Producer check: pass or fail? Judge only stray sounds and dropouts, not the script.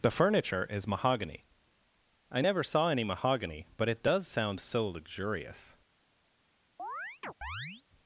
fail